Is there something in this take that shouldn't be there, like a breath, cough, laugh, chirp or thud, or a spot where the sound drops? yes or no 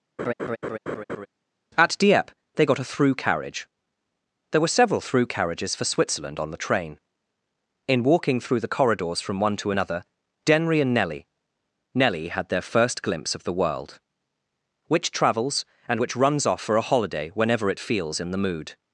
yes